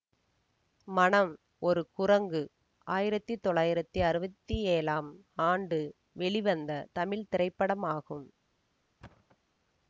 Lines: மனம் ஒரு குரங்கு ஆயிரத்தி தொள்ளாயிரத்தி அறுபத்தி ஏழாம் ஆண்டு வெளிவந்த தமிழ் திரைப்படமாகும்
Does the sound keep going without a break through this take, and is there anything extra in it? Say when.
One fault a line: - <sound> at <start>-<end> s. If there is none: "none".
- thud at 9.0-9.4 s